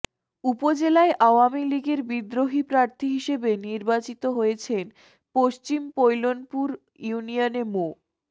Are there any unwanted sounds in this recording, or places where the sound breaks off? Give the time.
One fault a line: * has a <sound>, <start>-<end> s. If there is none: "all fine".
all fine